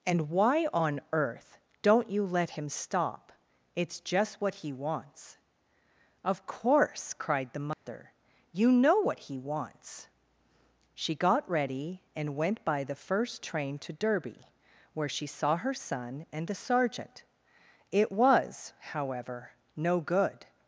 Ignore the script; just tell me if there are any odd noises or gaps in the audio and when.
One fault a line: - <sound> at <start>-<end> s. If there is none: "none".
- dropout at 7.7-7.9 s